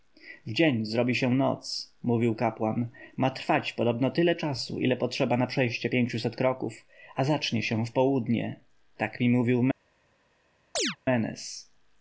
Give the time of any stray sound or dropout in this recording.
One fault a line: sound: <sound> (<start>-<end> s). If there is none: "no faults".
sound: chirp (10.8-11.0 s)